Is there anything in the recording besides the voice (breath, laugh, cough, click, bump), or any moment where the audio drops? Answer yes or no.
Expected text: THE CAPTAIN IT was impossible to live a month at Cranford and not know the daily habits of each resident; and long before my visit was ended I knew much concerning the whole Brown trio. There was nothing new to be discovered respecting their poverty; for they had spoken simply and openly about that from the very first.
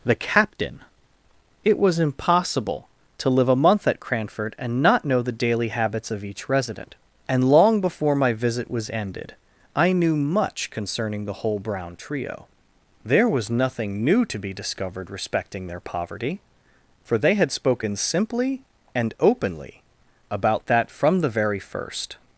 no